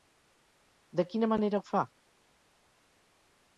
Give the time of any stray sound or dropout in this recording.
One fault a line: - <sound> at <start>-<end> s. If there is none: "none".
none